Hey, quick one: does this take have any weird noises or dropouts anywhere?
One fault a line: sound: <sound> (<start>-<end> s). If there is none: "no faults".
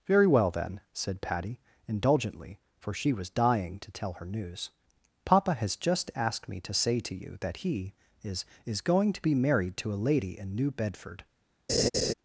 sound: laugh (11.7-12.1 s)